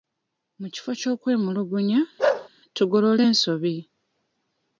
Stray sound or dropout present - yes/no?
yes